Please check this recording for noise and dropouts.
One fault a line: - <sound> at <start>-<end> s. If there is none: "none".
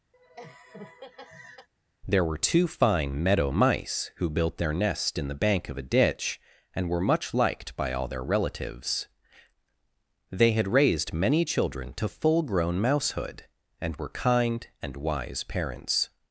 - laugh at 0.1-1.7 s